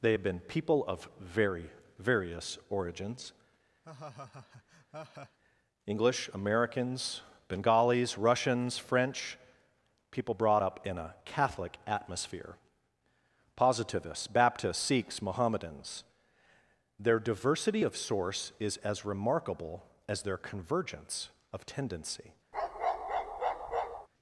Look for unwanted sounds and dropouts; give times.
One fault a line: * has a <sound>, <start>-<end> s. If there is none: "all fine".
* has a laugh, 3.8-5.4 s
* has a bark, 22.5-24.1 s